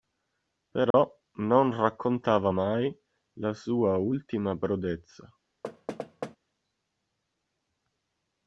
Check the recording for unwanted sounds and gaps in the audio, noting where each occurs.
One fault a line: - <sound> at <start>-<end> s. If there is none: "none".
- dropout at 0.9-0.9 s
- thud at 5.6-6.4 s